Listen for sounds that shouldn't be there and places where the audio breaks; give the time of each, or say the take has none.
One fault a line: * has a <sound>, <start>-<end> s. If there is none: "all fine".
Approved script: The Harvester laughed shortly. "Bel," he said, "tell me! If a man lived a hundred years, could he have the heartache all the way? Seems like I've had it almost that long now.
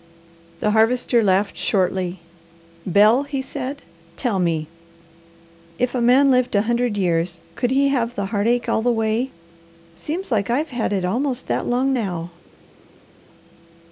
all fine